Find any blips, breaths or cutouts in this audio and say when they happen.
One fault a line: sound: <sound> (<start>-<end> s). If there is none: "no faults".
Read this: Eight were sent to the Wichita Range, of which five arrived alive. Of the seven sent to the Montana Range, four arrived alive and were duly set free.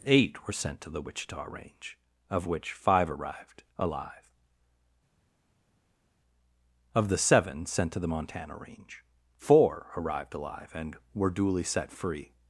no faults